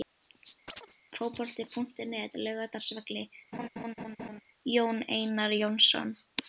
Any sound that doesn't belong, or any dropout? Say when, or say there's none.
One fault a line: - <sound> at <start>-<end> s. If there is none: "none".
- chirp at 0.7-1.0 s
- laugh at 3.5-4.4 s